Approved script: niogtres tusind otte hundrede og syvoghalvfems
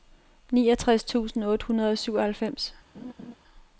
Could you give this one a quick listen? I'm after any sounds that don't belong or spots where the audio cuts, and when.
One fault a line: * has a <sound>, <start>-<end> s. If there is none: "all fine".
* has a laugh, 2.9-3.3 s